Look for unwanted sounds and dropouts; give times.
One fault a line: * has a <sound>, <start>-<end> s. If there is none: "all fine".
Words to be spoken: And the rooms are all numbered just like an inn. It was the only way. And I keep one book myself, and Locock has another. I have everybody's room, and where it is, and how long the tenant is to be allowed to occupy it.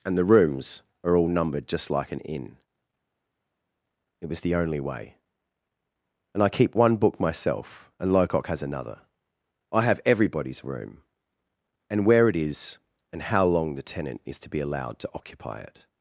all fine